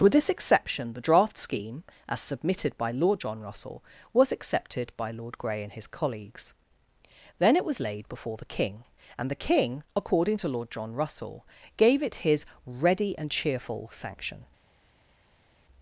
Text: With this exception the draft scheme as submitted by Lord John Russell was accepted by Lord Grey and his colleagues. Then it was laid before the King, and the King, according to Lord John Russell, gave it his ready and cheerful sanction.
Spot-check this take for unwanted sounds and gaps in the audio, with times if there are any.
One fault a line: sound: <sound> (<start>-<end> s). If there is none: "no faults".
no faults